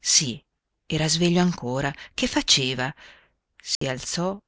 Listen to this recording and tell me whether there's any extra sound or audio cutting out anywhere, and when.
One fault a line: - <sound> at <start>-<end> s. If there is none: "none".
- dropout at 3.8-3.8 s